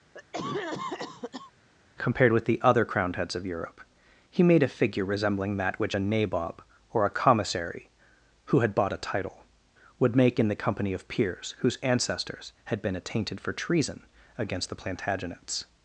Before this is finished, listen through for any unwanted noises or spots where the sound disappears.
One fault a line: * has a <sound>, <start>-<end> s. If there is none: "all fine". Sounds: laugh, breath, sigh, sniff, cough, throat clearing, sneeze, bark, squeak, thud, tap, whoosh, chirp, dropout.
* has a cough, 0.1-1.5 s